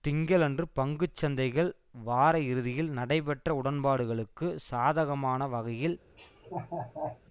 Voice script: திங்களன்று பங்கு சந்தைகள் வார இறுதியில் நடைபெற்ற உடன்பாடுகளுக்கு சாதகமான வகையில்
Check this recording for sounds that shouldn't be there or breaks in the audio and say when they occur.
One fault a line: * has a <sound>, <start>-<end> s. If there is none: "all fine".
* has a laugh, 6.2-7.2 s